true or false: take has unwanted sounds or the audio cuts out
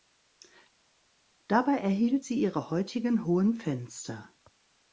false